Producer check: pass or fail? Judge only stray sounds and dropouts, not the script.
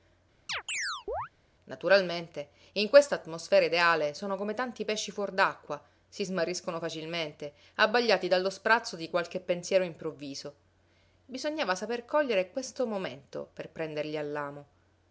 fail